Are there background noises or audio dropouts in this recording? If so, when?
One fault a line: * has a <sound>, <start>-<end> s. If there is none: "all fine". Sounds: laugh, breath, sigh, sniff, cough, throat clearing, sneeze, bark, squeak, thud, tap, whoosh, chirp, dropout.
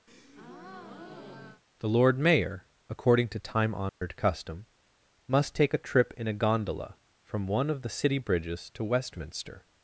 * has a breath, 0.1-1.6 s
* has a dropout, 3.9-4.0 s